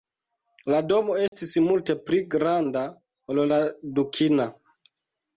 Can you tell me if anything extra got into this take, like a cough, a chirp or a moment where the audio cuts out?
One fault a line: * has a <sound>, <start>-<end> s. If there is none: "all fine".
* has a dropout, 1.3-1.3 s